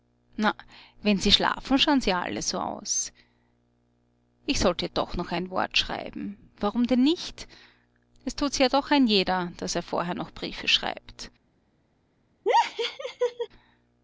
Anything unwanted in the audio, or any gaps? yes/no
yes